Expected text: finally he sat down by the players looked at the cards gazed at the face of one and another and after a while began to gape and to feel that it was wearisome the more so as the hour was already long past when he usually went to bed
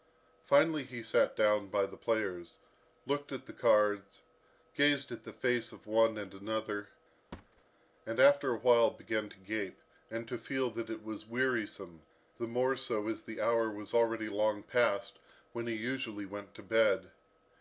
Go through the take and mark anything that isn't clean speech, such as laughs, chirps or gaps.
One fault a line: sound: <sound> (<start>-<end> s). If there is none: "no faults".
sound: thud (7.3-7.6 s)